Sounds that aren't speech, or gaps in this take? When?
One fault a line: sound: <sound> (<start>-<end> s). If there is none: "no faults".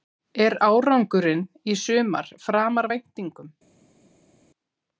no faults